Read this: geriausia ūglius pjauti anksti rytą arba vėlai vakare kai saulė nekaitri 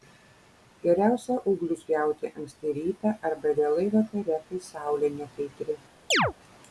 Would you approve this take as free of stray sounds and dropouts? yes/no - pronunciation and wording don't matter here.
no